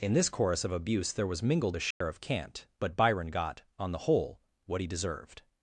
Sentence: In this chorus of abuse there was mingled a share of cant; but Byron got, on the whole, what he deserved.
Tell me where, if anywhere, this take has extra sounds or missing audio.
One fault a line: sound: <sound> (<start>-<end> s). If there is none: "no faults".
sound: dropout (1.9-2.0 s)